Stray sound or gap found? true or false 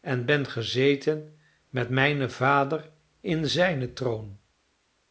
false